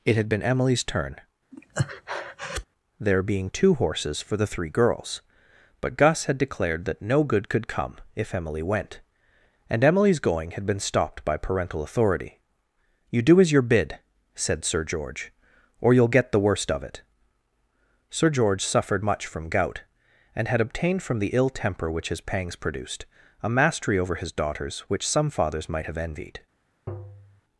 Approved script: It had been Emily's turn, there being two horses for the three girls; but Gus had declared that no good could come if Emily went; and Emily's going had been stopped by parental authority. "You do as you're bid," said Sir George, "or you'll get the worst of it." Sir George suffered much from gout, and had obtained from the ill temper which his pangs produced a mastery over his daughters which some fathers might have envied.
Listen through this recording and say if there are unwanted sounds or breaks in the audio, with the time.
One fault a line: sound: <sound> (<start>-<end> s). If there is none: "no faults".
sound: breath (1.5-2.7 s)
sound: tap (26.9-27.4 s)